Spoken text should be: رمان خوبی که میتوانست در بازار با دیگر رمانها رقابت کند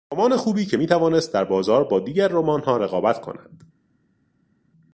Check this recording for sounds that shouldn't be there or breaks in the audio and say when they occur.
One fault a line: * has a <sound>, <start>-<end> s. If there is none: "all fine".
all fine